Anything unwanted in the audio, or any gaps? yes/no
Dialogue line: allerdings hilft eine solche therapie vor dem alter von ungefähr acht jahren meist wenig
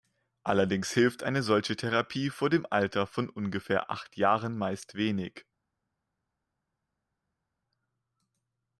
no